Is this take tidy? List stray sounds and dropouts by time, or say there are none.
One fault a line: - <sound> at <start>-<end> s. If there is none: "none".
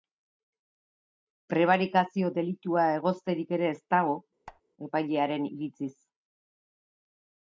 - squeak at 4.5-4.6 s